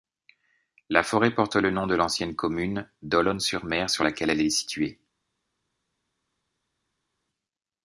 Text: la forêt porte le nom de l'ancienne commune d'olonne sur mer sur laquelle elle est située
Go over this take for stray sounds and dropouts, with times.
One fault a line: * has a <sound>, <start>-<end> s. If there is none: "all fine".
all fine